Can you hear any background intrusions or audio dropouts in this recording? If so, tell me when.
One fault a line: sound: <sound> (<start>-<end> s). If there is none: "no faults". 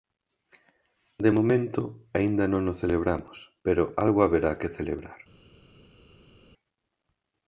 no faults